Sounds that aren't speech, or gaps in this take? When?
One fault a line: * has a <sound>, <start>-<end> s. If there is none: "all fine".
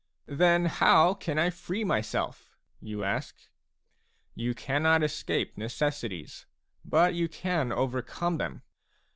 all fine